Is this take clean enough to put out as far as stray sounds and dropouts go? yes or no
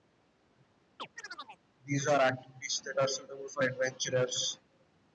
no